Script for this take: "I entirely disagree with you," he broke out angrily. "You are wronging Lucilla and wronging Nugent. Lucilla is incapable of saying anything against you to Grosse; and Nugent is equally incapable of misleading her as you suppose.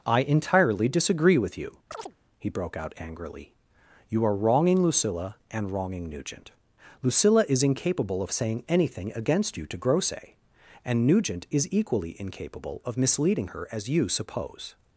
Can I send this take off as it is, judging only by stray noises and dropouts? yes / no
no